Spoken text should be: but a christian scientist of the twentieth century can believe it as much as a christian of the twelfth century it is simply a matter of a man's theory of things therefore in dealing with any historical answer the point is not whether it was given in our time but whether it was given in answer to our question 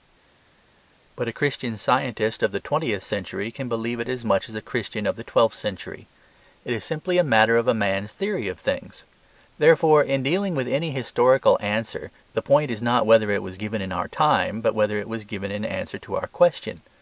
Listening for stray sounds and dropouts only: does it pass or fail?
pass